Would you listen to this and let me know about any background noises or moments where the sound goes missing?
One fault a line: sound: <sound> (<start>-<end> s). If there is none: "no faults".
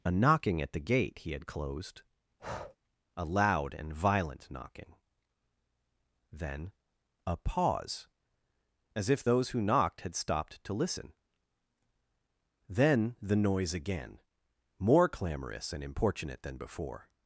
sound: breath (2.4-2.8 s)